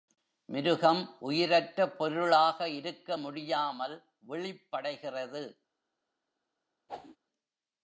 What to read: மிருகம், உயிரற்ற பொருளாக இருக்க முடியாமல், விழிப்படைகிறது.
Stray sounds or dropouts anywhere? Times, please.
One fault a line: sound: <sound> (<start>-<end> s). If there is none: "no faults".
sound: whoosh (6.9-7.2 s)